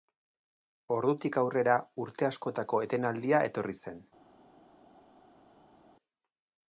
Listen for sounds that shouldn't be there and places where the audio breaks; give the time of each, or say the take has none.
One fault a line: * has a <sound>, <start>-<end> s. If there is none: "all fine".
all fine